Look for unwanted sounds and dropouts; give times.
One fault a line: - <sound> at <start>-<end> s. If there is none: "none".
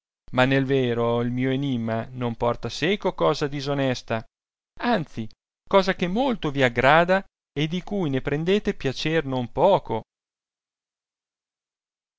none